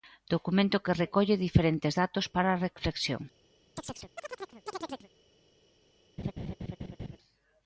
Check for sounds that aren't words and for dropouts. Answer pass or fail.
fail